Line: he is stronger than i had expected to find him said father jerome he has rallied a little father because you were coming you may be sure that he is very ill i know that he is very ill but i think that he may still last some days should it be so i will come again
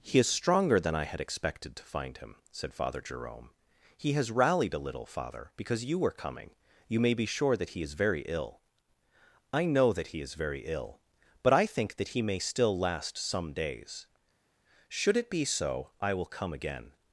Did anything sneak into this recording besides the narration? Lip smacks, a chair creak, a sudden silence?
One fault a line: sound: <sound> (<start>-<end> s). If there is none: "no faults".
no faults